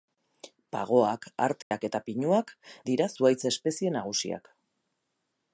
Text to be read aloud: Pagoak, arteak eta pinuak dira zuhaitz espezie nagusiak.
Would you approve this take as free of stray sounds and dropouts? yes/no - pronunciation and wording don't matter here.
no